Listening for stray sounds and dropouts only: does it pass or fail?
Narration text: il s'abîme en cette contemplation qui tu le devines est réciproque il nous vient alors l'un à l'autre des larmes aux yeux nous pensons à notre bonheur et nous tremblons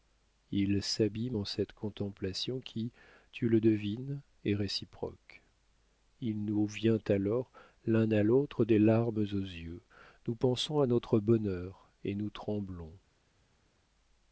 pass